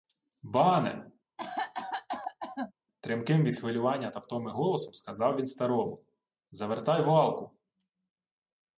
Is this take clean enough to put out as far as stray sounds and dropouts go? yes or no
no